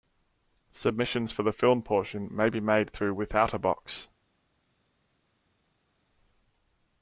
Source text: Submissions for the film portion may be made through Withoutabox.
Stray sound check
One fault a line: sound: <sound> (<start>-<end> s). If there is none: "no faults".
no faults